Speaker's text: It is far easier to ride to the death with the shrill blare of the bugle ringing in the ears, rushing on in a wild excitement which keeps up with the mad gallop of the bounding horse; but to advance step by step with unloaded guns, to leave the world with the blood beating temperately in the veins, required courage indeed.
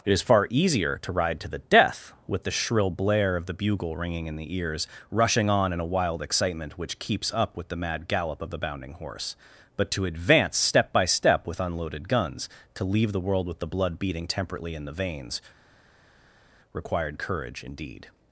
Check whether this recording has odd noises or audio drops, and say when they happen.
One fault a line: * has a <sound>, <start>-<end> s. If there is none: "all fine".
all fine